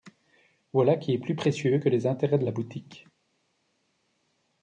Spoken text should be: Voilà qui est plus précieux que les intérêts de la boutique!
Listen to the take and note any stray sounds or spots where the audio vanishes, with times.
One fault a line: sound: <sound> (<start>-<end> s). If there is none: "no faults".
no faults